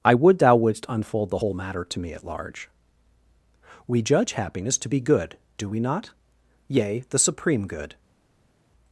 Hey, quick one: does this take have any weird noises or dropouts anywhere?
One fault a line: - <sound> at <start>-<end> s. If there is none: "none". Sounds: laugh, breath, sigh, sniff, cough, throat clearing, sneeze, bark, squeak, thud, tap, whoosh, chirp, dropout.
none